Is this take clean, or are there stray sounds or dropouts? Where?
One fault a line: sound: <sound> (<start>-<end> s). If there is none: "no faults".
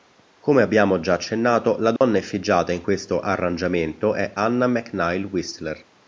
sound: dropout (2.0-2.0 s)